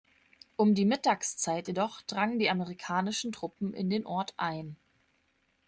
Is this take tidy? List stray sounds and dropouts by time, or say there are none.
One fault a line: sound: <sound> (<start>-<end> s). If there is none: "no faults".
no faults